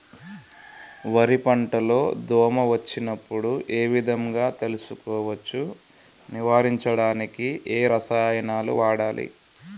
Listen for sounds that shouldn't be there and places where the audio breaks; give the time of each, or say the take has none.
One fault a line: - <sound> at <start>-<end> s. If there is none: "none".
none